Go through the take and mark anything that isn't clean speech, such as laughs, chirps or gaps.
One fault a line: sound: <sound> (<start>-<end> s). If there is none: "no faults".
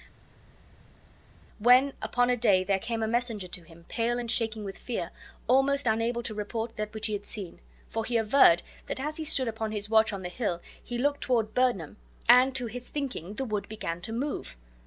no faults